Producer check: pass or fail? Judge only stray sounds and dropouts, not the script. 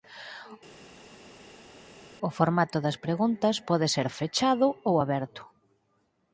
pass